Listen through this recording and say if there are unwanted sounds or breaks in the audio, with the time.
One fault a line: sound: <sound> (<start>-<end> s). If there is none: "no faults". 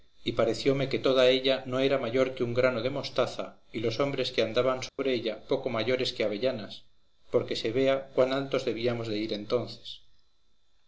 sound: dropout (4.9-5.0 s)